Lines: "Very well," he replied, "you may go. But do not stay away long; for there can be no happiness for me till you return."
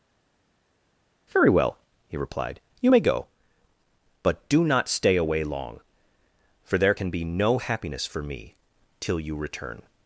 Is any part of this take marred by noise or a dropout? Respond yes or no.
no